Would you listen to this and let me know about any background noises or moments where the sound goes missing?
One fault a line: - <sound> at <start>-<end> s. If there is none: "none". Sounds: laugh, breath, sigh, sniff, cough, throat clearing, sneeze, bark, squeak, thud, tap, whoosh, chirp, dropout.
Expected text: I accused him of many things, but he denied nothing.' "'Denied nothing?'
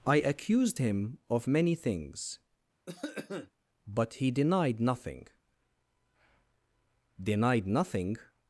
- cough at 2.9-3.5 s